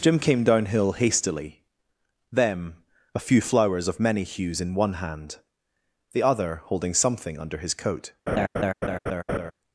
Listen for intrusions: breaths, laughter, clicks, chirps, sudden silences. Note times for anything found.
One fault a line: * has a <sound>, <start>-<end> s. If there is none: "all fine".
* has a laugh, 8.3-9.5 s